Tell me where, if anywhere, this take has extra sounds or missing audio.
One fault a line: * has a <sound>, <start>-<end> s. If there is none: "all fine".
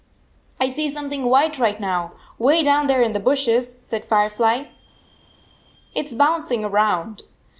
all fine